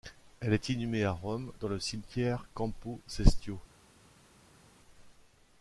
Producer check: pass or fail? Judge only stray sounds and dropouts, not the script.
pass